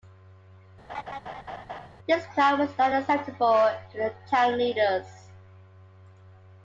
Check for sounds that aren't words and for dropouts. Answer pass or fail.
fail